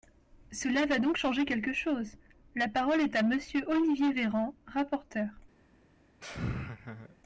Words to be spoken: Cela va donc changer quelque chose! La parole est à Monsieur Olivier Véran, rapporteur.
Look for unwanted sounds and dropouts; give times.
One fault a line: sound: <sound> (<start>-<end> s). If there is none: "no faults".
sound: laugh (6.2-7.2 s)